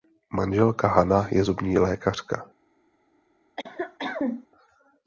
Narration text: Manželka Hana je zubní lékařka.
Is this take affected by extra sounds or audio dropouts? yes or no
yes